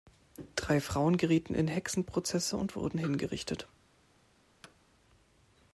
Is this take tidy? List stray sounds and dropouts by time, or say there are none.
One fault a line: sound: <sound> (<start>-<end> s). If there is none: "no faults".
sound: thud (4.6-4.8 s)